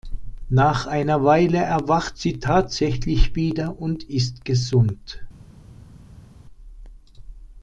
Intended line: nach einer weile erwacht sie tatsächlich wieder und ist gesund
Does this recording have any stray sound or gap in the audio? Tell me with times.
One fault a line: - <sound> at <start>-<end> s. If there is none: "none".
none